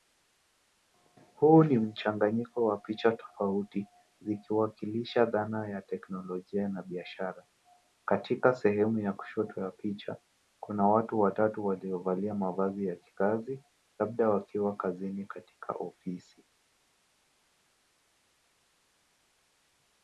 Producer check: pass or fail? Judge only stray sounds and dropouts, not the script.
pass